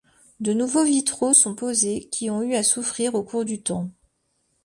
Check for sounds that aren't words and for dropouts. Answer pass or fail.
pass